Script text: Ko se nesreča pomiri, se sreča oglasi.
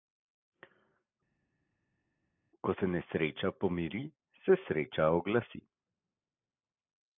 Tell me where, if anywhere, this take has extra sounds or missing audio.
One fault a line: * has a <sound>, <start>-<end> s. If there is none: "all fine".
all fine